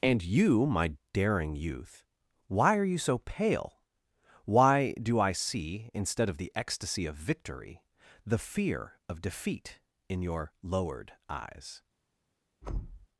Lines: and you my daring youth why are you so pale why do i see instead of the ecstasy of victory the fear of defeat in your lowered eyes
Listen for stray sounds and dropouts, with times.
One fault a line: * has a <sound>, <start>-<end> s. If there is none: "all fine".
* has a thud, 12.6-13.1 s